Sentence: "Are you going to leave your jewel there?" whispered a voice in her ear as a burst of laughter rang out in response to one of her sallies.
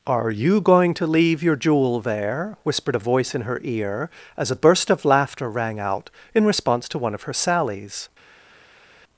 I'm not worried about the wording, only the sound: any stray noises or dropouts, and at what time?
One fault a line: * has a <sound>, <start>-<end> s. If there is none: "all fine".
all fine